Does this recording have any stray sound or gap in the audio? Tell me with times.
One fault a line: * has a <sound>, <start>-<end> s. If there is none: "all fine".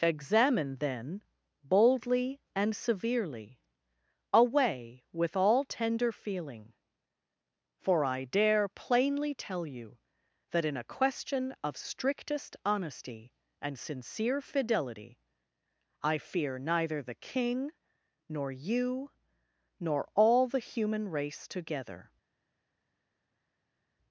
all fine